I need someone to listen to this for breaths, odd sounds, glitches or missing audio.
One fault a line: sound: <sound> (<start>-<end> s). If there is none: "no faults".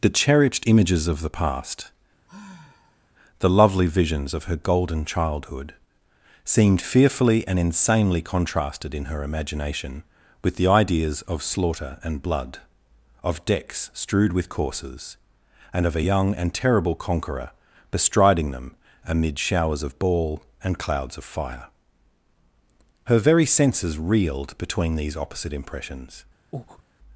sound: sigh (2.3-3.1 s)
sound: breath (26.5-26.8 s)